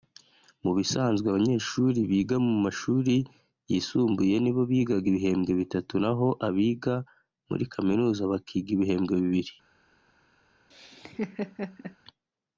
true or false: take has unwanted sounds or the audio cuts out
true